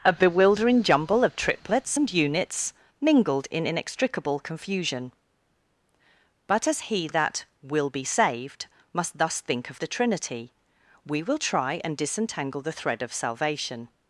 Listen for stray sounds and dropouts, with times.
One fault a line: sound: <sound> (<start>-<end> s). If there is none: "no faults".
no faults